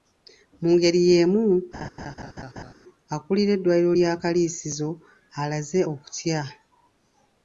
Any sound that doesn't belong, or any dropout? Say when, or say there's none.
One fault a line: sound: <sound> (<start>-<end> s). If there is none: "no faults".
sound: laugh (1.7-2.7 s)